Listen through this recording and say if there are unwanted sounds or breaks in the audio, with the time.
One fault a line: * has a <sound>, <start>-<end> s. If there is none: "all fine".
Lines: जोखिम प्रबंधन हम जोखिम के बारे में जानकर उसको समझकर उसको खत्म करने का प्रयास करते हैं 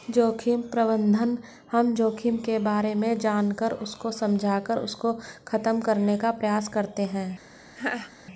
* has a laugh, 7.8-8.1 s